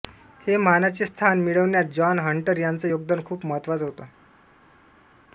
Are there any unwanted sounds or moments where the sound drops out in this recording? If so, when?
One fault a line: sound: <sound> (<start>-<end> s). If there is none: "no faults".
no faults